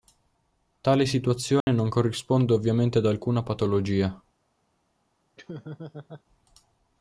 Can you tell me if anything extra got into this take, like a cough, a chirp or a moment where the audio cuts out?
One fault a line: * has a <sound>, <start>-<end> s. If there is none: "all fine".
* has a dropout, 1.6-1.7 s
* has a laugh, 5.4-6.2 s